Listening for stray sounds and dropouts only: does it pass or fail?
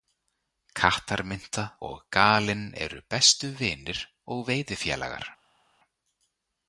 pass